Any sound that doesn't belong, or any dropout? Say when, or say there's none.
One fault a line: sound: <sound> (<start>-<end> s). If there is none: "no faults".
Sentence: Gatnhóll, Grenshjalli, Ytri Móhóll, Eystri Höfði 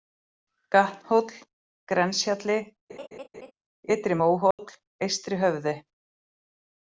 sound: laugh (2.9-3.5 s)
sound: dropout (4.5-4.6 s)